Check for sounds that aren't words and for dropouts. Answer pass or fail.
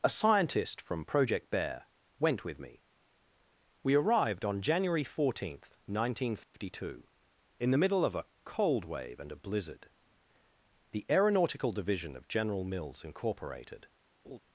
fail